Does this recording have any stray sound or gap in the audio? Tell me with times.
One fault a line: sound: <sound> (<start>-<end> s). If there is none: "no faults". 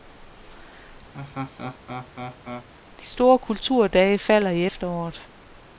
sound: laugh (1.1-2.7 s)